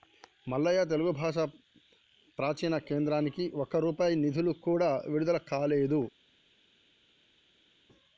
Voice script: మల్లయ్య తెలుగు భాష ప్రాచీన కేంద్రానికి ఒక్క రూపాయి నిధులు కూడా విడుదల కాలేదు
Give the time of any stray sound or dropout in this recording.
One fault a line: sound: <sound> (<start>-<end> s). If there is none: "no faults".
no faults